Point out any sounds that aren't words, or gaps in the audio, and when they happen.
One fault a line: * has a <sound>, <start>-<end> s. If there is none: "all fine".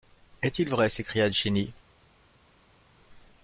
all fine